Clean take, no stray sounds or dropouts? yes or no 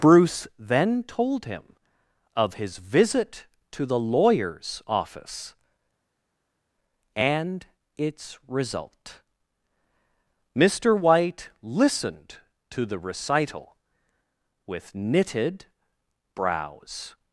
yes